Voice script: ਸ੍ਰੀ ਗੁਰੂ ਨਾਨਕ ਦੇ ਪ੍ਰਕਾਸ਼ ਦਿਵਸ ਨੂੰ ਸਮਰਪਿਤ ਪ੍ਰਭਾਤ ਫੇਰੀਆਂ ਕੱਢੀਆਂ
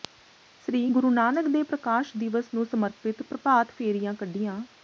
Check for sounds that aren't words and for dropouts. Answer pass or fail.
pass